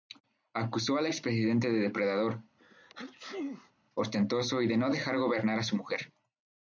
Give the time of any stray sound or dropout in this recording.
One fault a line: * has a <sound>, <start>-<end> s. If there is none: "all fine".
* has a sneeze, 2.6-3.7 s